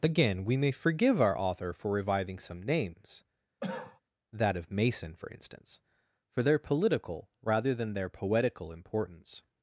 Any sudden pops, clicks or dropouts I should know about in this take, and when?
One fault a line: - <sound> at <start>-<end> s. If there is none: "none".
- cough at 3.6-4.0 s